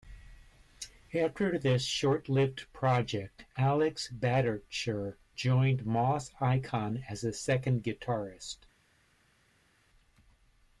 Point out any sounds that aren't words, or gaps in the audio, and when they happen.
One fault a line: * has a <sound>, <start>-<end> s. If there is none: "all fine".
all fine